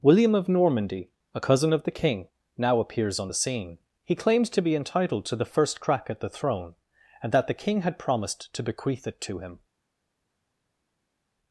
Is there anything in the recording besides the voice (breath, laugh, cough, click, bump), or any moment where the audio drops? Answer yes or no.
no